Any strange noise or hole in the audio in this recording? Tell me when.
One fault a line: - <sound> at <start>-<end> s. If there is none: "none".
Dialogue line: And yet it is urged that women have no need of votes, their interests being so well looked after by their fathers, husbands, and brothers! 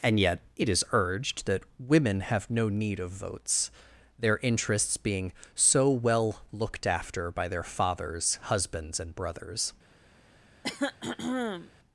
- throat clearing at 10.6-11.7 s